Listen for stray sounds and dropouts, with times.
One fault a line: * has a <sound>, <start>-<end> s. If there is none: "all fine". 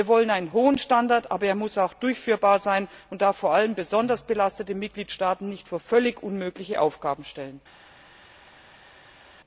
all fine